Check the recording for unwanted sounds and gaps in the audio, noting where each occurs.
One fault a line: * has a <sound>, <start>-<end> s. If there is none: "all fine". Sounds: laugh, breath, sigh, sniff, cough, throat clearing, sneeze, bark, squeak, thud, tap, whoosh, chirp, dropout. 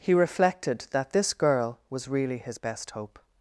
all fine